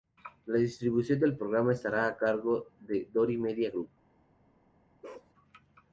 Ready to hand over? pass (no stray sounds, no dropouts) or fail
fail